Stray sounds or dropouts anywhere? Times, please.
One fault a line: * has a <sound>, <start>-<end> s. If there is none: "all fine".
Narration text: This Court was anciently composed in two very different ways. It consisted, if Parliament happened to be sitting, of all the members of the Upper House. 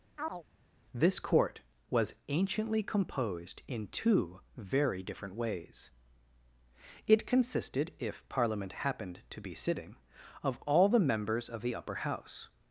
* has a chirp, 0.2-0.4 s